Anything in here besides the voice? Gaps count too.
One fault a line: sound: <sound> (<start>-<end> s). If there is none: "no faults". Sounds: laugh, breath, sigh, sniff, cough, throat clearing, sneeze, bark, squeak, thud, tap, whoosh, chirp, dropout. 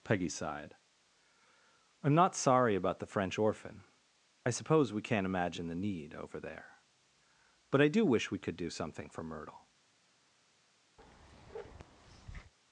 sound: bark (11.0-12.5 s)